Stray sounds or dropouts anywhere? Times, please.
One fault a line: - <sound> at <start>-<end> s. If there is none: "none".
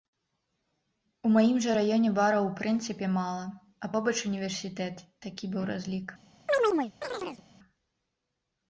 - chirp at 6.5-7.4 s